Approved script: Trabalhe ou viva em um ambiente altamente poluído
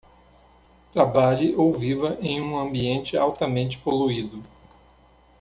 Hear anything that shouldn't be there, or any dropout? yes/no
no